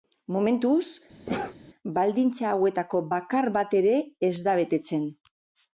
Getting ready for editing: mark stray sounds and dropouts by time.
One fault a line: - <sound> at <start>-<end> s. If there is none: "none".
- sneeze at 1.3-1.6 s